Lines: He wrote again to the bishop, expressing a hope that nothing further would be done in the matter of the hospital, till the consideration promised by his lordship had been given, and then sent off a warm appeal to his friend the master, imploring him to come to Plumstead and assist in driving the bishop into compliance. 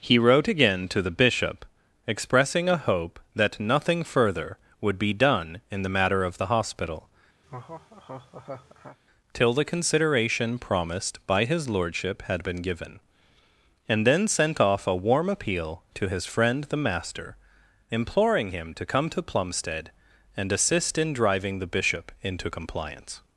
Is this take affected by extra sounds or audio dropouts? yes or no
yes